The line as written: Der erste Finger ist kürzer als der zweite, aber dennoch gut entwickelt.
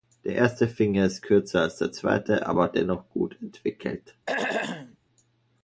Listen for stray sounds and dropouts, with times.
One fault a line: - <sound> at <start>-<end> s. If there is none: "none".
- throat clearing at 4.3-5.0 s